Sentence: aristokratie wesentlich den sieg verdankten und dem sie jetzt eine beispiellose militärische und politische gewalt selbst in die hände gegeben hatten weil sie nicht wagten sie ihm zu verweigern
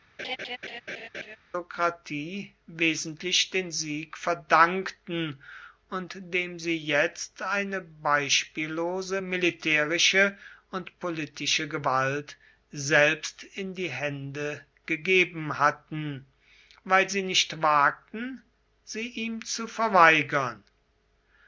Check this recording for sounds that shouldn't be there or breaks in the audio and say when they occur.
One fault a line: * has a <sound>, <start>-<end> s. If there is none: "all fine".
* has a laugh, 0.2-1.4 s